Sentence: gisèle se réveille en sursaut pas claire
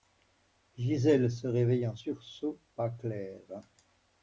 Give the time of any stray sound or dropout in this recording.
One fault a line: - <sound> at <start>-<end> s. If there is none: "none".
none